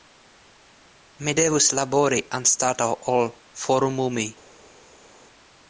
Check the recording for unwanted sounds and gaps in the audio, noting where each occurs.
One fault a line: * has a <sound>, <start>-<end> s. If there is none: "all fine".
all fine